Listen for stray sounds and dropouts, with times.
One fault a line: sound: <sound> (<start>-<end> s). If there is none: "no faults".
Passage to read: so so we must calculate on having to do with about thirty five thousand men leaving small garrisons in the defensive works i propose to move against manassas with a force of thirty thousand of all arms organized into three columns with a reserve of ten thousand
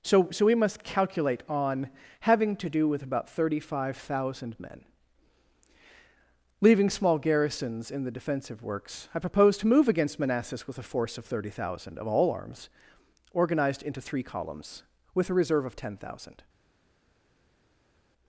no faults